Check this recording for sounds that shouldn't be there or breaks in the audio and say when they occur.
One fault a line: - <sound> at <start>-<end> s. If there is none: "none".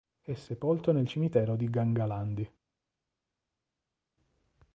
none